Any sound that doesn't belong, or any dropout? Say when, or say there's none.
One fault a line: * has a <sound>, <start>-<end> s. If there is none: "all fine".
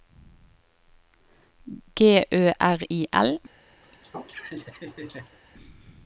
* has a laugh, 3.8-5.4 s